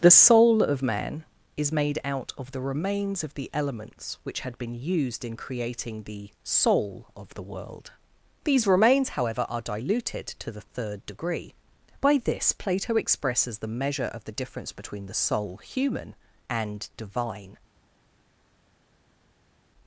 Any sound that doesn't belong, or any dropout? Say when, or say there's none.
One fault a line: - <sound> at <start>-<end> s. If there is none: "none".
none